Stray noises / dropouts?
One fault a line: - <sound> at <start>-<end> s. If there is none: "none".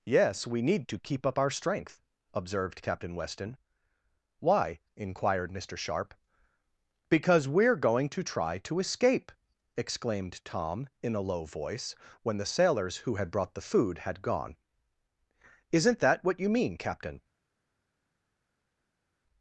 none